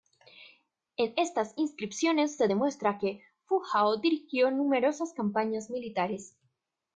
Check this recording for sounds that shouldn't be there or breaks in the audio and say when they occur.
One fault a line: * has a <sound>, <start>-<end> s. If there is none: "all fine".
all fine